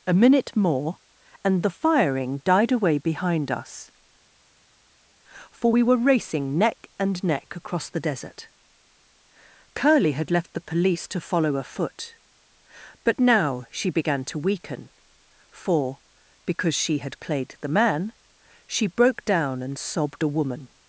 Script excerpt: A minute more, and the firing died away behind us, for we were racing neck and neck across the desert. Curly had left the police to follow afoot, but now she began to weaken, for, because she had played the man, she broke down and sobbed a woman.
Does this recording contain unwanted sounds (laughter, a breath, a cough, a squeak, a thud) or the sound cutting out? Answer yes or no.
no